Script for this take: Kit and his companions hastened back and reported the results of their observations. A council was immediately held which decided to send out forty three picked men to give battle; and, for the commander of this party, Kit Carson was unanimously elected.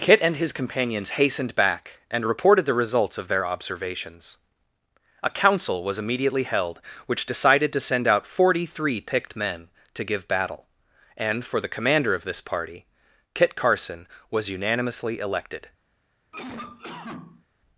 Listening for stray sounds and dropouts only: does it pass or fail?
fail